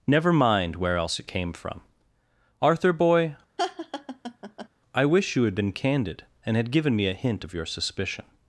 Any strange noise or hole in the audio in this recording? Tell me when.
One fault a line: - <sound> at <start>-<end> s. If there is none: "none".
- laugh at 3.6-4.7 s